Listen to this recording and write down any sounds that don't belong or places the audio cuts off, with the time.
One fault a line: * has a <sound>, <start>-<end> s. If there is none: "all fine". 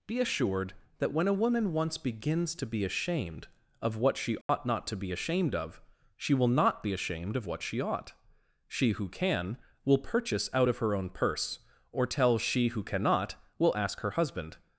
* has a dropout, 4.4-4.5 s